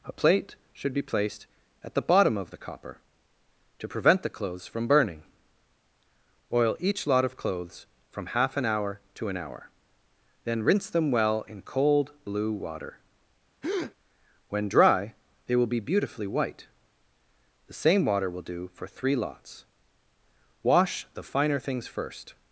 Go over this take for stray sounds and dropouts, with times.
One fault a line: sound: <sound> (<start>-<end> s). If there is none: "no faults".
sound: breath (13.6-13.9 s)